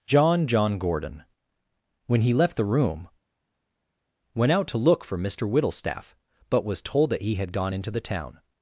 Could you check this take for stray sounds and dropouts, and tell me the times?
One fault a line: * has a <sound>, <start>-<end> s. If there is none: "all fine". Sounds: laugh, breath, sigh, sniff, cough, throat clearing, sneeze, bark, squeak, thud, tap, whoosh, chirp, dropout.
all fine